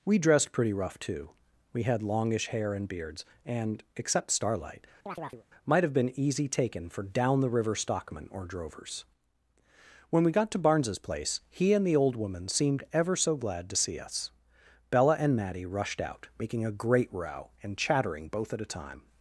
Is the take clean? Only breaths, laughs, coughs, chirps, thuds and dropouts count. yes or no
no